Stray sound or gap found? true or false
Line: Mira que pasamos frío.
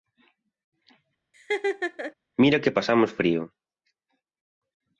true